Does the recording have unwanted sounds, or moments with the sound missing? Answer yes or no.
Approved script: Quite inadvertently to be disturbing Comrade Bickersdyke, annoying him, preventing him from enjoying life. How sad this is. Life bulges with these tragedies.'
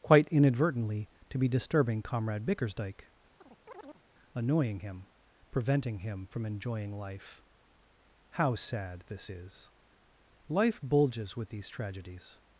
yes